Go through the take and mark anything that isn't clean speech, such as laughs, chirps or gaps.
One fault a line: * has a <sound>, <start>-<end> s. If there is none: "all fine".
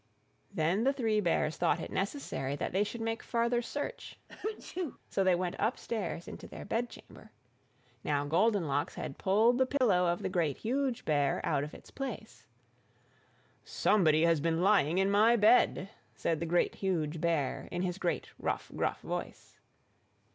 * has a sneeze, 4.3-5.0 s
* has a dropout, 9.8-9.8 s